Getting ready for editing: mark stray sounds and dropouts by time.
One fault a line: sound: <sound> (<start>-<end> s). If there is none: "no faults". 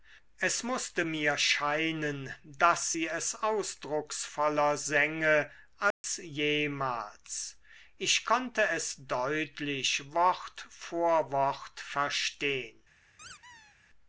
sound: dropout (5.9-6.0 s)
sound: squeak (13.2-13.8 s)